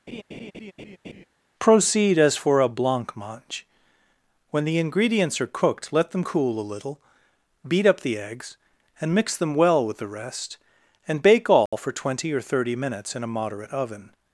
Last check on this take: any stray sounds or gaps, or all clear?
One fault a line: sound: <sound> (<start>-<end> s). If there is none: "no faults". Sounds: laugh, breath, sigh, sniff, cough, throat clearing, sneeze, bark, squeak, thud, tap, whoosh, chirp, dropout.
sound: laugh (0.1-1.3 s)
sound: dropout (11.7-11.7 s)